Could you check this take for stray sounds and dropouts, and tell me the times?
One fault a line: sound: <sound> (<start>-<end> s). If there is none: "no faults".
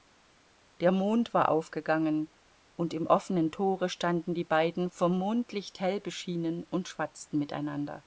no faults